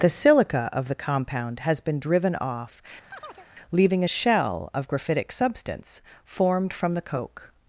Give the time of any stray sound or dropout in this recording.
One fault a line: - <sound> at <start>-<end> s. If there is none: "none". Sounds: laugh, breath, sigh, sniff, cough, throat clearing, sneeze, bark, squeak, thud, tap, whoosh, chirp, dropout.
- chirp at 3.1-3.5 s